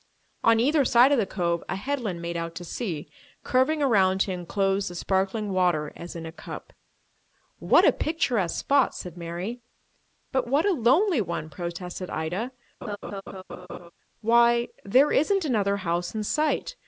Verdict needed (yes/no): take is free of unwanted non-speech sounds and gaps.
no